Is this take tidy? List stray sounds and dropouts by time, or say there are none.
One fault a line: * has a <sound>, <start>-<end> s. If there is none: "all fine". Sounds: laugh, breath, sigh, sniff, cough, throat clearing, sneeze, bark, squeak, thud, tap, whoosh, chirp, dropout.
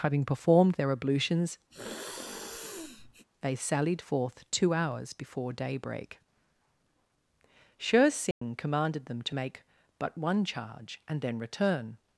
* has a sneeze, 1.7-3.3 s
* has a dropout, 8.3-8.4 s